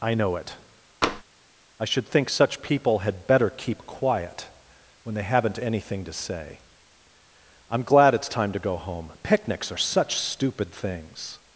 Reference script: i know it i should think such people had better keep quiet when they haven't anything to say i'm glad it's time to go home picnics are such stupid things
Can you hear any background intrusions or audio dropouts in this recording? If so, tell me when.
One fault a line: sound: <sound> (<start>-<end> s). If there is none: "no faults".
sound: tap (1.0-1.2 s)